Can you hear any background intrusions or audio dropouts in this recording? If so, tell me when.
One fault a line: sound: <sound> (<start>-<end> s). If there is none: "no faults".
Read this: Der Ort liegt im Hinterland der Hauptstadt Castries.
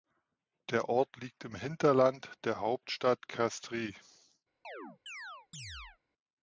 sound: chirp (4.6-6.0 s)